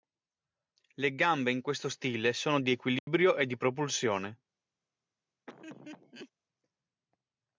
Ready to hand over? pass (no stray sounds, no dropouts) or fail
fail